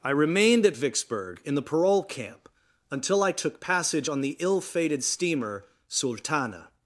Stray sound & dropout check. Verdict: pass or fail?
pass